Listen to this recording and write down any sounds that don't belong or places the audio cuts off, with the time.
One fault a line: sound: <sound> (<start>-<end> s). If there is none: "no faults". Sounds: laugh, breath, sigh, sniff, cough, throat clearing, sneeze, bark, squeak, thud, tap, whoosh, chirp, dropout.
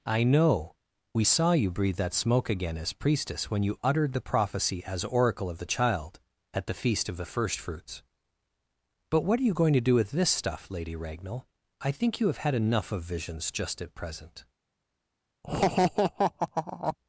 sound: laugh (15.4-17.0 s)